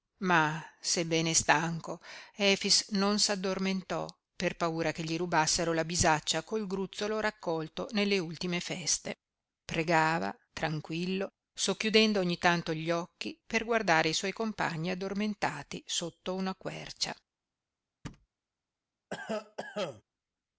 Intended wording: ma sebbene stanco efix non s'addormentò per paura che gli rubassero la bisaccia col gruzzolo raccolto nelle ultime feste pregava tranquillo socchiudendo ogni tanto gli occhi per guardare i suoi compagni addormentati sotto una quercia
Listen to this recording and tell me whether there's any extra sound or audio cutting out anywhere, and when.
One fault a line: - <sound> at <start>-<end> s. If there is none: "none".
- thud at 18.0-18.3 s
- cough at 19.1-20.0 s